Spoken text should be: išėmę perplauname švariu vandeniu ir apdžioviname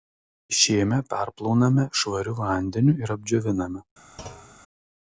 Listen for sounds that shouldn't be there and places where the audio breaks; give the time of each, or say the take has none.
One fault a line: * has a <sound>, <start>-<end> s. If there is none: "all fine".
* has a thud, 4.2-4.6 s